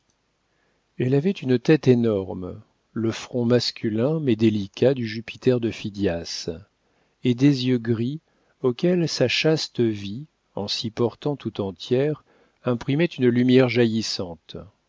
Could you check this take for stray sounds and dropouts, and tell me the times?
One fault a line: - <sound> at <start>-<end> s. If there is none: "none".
none